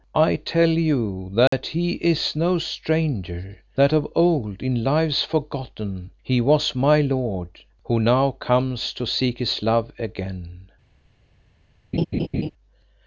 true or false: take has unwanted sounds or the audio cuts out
true